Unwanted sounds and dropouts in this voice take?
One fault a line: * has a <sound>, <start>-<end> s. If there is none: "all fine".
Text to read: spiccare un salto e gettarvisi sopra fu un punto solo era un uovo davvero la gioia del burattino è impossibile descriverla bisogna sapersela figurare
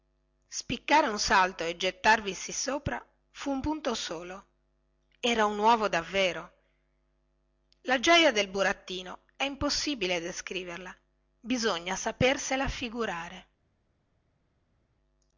all fine